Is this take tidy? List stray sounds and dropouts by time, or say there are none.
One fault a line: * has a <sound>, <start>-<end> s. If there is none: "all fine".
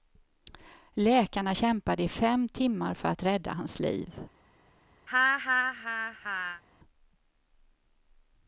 * has a laugh, 5.1-6.6 s